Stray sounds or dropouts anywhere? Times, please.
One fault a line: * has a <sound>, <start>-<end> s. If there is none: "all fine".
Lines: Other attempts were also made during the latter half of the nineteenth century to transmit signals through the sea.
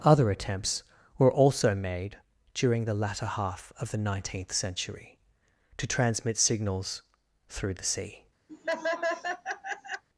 * has a laugh, 8.5-10.0 s